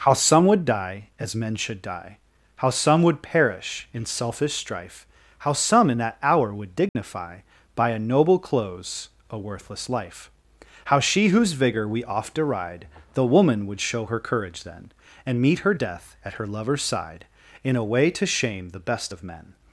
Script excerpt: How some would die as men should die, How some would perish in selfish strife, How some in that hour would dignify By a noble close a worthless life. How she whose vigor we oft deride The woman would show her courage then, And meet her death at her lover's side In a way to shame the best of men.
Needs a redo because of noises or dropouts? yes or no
yes